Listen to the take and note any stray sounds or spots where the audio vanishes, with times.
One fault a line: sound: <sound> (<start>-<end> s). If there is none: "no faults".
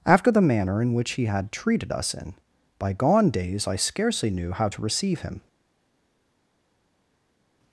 no faults